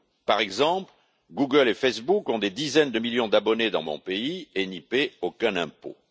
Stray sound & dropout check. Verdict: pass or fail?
pass